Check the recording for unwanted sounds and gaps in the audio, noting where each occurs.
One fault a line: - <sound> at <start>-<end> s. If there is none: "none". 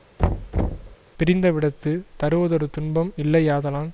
- thud at 0.2-1.0 s